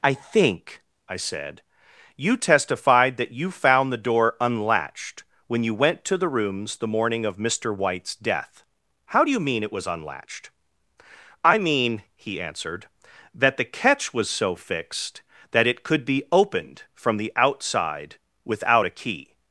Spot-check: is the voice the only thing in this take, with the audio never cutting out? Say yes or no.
yes